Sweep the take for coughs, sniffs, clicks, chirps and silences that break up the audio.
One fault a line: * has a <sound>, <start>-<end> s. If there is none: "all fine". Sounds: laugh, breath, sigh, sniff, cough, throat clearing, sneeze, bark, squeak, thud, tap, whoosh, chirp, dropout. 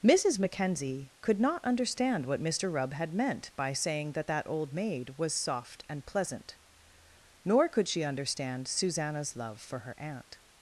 all fine